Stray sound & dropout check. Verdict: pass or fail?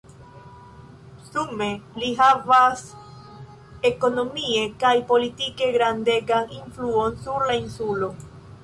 pass